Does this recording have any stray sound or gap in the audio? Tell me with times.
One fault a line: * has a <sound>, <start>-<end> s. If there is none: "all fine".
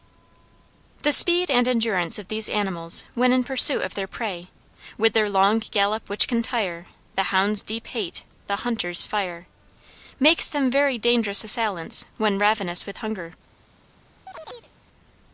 * has a chirp, 14.3-14.7 s